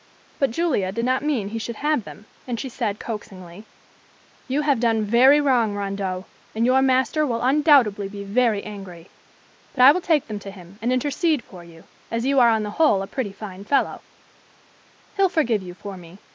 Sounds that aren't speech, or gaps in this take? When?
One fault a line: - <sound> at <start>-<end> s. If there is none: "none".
none